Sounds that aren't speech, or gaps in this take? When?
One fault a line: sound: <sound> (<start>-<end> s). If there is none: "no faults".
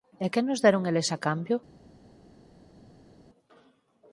no faults